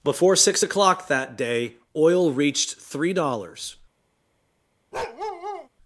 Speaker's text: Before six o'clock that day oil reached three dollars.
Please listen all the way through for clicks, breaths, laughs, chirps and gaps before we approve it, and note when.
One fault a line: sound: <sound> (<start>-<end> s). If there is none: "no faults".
sound: bark (4.9-5.7 s)